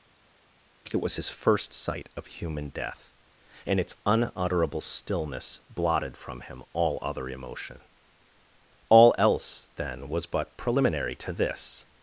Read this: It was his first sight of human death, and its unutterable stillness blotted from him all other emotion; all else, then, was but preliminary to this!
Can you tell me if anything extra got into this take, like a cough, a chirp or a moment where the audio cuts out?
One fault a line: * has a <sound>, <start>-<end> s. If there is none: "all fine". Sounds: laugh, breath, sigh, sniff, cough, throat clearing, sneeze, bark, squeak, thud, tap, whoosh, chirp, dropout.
all fine